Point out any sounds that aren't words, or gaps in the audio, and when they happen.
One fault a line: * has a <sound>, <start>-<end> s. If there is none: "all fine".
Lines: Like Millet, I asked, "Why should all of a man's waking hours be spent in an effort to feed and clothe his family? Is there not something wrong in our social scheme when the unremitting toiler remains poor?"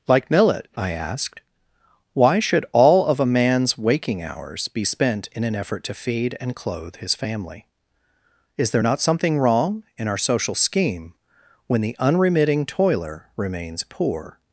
all fine